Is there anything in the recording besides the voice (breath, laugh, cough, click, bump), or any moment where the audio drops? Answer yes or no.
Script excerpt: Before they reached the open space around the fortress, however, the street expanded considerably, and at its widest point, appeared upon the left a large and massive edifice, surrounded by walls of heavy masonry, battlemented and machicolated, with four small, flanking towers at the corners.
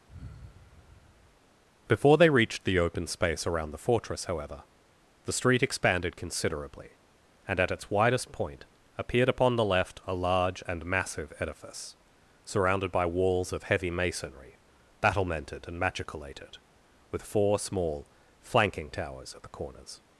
yes